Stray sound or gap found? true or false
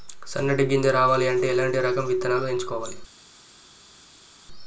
false